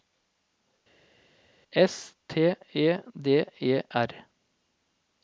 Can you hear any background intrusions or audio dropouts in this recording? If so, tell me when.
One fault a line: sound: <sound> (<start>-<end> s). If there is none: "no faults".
no faults